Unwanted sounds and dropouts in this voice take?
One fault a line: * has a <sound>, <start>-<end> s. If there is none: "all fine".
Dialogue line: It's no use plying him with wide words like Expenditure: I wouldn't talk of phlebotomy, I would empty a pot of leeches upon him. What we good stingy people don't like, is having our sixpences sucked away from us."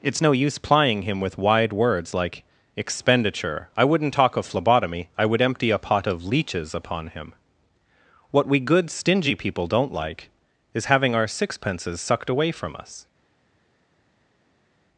all fine